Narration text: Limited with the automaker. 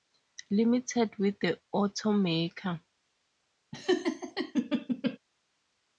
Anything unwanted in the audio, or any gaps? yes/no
yes